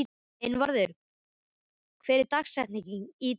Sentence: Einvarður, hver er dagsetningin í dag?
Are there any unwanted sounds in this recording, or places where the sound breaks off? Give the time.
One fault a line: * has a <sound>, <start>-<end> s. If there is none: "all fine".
all fine